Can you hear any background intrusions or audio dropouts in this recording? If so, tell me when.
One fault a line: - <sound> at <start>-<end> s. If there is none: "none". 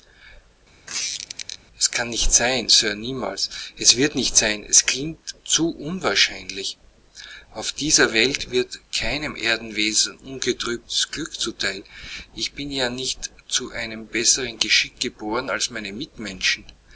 - squeak at 0.9-1.6 s